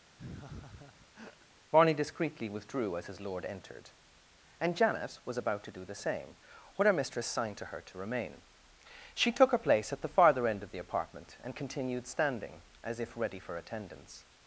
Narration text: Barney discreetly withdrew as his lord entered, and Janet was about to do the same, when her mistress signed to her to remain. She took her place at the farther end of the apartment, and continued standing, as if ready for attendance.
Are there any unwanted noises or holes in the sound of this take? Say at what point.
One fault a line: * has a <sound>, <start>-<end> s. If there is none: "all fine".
* has a laugh, 0.2-1.5 s